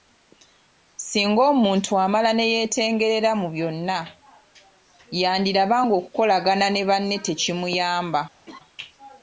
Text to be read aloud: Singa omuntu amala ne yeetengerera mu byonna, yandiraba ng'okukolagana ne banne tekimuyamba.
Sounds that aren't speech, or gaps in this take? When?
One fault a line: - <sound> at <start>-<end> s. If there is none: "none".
- laugh at 8.5-8.6 s